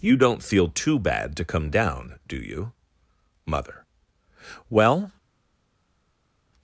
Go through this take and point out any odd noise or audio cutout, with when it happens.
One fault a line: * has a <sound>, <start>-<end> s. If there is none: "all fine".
all fine